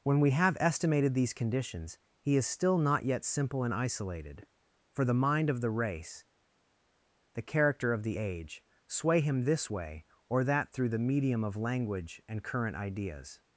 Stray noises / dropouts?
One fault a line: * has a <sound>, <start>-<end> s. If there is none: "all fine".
all fine